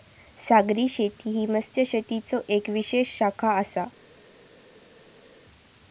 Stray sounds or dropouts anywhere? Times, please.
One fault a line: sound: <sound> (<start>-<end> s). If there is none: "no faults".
no faults